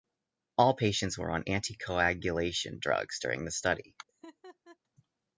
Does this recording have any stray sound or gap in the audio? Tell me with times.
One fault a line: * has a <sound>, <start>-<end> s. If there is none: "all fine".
* has a laugh, 4.1-4.8 s